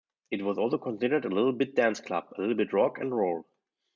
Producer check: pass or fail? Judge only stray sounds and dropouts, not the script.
pass